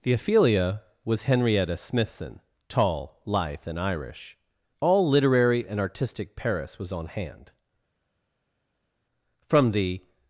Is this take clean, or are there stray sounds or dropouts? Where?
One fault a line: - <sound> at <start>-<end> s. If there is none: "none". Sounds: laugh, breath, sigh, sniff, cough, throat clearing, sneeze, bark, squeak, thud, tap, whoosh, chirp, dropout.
none